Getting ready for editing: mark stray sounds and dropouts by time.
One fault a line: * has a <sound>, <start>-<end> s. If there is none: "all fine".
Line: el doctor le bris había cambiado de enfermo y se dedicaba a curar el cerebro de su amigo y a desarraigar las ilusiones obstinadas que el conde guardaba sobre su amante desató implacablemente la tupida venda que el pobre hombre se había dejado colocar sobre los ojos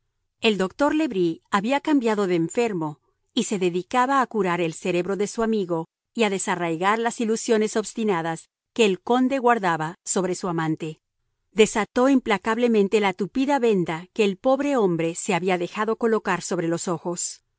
all fine